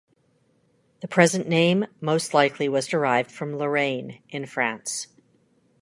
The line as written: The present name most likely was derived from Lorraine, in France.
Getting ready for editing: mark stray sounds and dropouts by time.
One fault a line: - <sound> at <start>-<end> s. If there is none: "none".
none